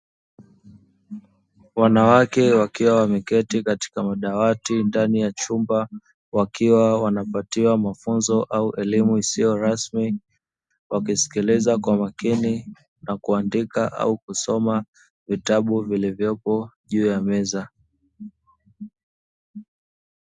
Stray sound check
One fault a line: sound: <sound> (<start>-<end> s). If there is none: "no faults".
no faults